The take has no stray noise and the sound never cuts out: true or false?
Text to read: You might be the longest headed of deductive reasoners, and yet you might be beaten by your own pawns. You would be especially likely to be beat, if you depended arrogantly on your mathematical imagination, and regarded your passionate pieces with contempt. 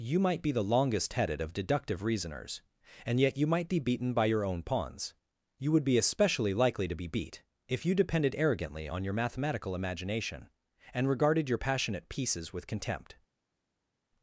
true